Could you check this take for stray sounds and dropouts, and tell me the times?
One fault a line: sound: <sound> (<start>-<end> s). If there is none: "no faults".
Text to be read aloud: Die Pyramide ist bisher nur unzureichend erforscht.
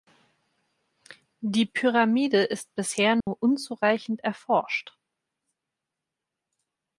sound: dropout (3.2-3.3 s)